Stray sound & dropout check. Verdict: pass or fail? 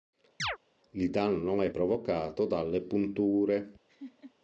fail